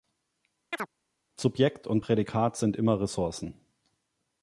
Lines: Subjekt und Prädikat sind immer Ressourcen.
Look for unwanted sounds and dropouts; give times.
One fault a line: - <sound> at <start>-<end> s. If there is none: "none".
- chirp at 0.7-0.9 s